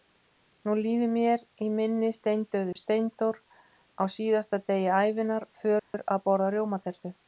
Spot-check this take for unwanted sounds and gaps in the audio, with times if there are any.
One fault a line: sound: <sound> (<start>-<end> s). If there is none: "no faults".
sound: dropout (2.7-2.8 s)
sound: dropout (5.8-5.9 s)